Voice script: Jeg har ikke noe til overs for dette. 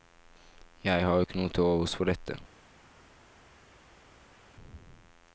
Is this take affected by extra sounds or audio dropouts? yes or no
no